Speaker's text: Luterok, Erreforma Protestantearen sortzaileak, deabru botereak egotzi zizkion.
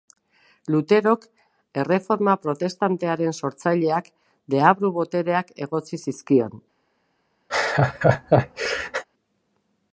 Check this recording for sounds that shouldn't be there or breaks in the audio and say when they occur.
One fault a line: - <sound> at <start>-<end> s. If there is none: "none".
- laugh at 7.5-9.0 s